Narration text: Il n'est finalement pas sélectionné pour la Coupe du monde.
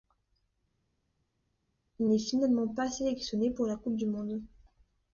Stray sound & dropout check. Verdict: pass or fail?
pass